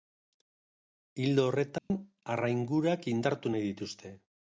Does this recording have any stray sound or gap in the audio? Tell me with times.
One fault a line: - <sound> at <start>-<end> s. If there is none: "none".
- dropout at 1.8-1.9 s